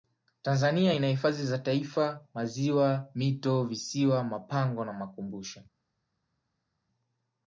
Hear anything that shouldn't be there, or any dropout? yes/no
no